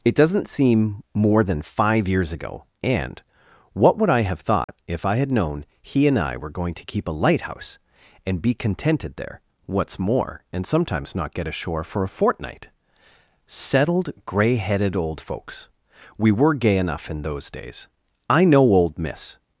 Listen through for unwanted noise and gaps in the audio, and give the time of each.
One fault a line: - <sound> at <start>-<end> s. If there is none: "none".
- dropout at 4.6-4.7 s